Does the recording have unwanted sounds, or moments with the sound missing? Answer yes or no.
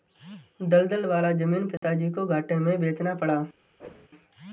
yes